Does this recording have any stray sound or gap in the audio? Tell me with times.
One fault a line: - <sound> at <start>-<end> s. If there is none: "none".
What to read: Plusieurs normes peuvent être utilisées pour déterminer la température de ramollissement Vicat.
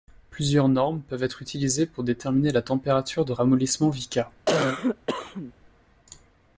- cough at 4.5-5.5 s